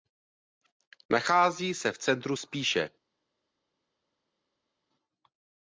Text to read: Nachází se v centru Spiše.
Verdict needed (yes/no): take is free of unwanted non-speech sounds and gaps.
yes